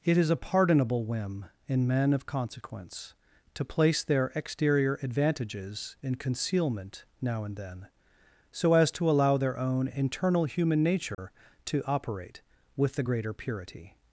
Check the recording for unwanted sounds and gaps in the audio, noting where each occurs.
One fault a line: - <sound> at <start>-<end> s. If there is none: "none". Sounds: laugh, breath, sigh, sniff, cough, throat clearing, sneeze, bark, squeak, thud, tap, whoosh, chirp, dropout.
- dropout at 11.1-11.2 s